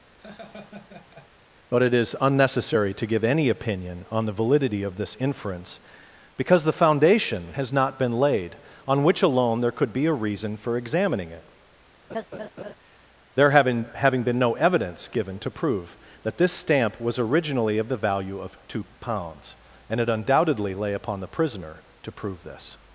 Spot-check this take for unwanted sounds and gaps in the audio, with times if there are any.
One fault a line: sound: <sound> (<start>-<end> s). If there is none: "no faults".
sound: laugh (0.2-1.3 s)
sound: laugh (12.1-12.7 s)